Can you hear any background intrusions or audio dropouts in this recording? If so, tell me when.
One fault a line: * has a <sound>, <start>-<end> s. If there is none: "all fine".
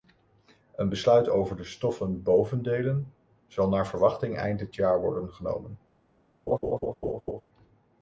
* has a laugh, 6.5-7.4 s